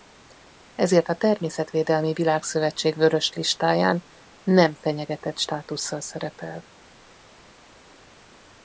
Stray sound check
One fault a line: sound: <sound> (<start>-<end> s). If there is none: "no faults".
no faults